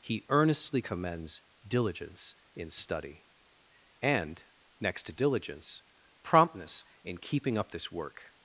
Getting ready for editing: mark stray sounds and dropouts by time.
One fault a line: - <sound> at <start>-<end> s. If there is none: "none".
none